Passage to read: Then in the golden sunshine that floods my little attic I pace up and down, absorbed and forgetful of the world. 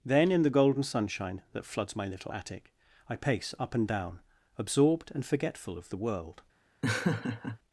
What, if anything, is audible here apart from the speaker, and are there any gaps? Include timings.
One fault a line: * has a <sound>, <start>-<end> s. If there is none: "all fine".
* has a laugh, 6.8-7.6 s